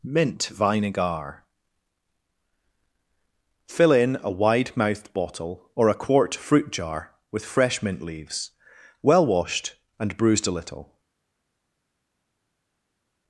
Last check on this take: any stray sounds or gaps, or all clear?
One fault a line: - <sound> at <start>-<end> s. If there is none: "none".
none